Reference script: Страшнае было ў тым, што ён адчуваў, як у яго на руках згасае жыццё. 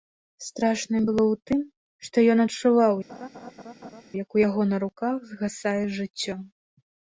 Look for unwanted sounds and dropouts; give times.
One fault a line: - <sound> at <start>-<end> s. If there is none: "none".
- laugh at 3.1-4.0 s